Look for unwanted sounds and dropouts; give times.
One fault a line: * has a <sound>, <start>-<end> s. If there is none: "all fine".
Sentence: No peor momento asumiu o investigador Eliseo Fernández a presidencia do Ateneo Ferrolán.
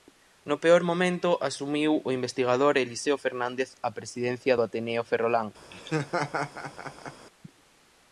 * has a laugh, 5.7-7.3 s